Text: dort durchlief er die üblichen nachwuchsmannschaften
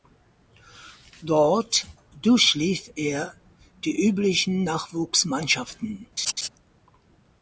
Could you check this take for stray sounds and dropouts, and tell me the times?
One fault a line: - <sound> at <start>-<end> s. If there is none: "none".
- laugh at 6.2-6.5 s